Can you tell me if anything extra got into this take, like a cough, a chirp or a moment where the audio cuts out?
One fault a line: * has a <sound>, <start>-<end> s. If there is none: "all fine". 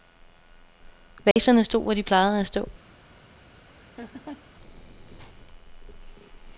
* has a dropout, 1.3-1.4 s
* has a laugh, 3.7-4.5 s